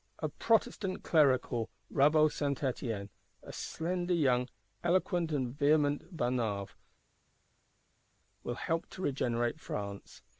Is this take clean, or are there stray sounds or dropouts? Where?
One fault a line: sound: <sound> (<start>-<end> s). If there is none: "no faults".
no faults